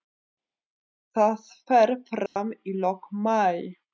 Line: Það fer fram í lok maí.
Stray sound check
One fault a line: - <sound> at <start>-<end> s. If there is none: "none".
- dropout at 2.3-2.4 s